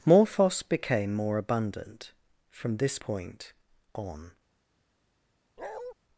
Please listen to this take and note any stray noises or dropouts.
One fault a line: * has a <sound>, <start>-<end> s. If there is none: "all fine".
* has a bark, 5.6-5.9 s